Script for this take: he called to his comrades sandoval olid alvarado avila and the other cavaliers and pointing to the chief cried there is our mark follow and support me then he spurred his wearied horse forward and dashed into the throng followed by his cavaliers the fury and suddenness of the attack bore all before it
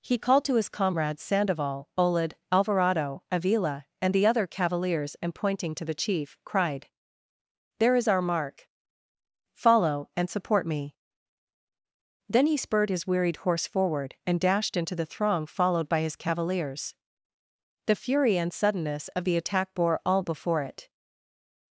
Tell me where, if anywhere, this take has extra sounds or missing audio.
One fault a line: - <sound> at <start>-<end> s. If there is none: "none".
none